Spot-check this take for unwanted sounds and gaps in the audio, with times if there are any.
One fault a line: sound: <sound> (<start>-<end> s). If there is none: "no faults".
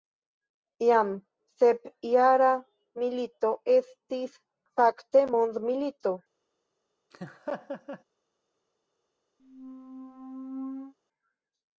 sound: laugh (7.1-8.0 s)
sound: squeak (9.4-10.9 s)